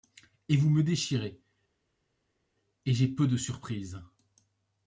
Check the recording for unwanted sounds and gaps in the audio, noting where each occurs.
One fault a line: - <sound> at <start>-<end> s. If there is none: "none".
none